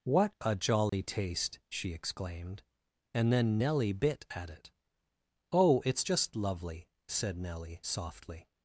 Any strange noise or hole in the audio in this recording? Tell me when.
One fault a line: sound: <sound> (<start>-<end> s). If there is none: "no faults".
sound: dropout (0.9-0.9 s)